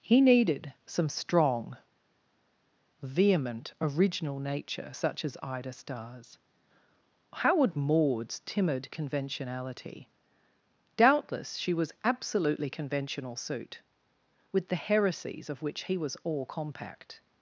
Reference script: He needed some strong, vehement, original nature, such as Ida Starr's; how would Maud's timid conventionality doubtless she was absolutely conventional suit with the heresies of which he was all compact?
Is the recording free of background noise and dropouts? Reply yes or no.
yes